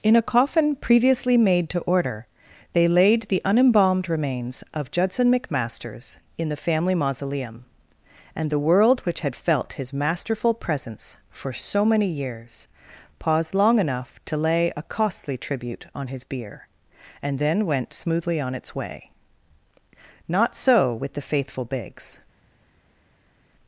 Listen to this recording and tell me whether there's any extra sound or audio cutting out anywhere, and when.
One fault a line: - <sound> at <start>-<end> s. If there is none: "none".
none